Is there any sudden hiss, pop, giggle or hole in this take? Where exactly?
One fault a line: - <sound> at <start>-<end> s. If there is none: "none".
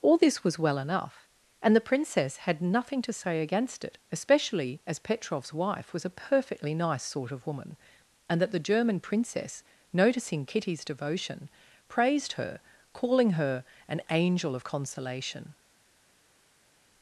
none